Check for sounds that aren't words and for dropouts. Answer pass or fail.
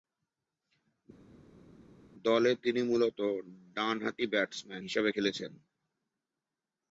pass